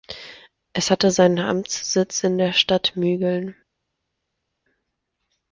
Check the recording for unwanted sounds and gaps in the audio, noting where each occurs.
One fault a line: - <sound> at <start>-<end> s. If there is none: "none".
none